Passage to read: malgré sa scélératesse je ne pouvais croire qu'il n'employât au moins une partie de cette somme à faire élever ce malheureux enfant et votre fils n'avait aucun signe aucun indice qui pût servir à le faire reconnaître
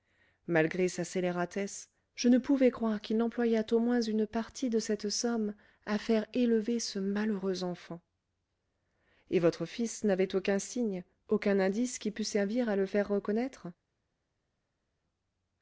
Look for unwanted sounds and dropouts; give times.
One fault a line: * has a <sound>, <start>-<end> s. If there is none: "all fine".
all fine